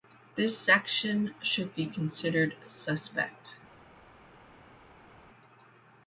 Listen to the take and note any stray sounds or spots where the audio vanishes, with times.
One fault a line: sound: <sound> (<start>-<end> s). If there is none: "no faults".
no faults